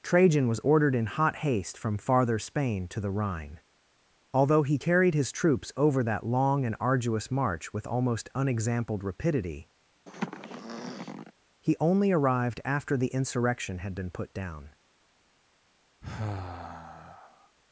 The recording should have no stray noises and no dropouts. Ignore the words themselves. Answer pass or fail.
fail